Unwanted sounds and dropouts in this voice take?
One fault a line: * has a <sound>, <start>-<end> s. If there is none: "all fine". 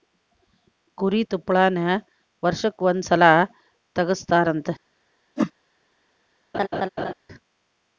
* has a whoosh, 5.4-5.5 s
* has a laugh, 6.5-7.1 s